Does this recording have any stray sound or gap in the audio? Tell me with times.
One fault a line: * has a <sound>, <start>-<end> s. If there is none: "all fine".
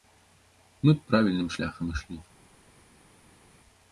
all fine